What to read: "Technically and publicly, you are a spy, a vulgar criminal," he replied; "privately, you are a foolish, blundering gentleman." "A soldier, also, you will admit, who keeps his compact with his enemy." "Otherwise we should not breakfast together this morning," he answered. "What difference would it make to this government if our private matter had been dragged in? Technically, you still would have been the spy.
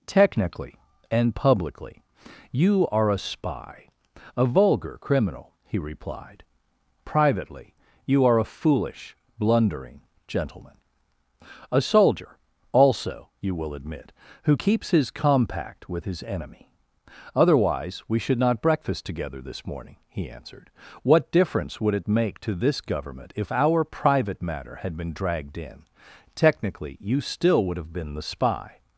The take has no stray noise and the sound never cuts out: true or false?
true